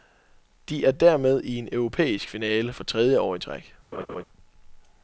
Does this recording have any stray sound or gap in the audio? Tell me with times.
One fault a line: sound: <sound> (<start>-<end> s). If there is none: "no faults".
sound: laugh (3.9-4.2 s)